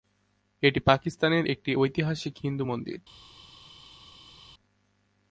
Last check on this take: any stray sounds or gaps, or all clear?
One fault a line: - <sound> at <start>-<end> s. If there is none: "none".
none